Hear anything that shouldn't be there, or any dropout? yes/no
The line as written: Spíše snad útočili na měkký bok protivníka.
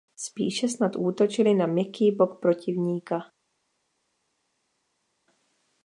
no